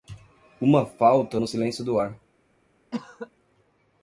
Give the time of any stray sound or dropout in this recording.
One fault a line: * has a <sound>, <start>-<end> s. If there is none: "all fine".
* has a cough, 2.9-3.3 s